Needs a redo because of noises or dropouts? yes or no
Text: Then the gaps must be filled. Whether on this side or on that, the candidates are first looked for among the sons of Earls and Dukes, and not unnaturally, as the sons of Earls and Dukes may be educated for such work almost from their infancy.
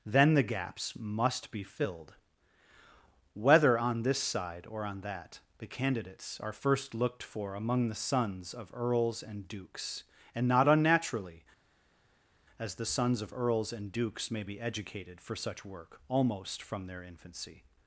no